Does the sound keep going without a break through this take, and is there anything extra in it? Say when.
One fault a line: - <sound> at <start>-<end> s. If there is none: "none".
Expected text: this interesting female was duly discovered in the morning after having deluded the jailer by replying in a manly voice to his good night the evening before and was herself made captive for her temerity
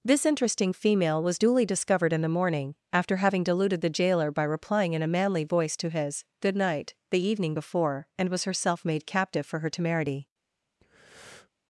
- breath at 10.8-11.5 s